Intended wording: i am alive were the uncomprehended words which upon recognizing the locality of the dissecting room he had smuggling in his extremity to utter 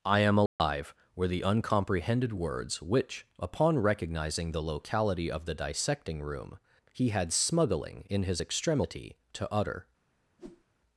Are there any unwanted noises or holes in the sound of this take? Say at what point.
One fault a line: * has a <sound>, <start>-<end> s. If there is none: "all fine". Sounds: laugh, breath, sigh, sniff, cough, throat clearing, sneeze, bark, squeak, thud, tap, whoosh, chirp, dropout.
* has a dropout, 0.5-0.6 s
* has a whoosh, 10.4-10.6 s